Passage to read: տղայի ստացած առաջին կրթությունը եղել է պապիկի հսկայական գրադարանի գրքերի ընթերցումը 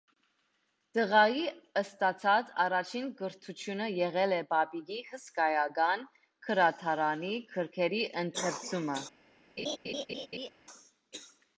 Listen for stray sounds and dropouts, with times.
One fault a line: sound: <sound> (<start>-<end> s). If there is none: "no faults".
sound: laugh (9.6-10.5 s)